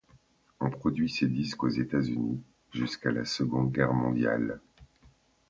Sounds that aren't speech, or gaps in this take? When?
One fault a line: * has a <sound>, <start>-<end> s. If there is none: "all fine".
all fine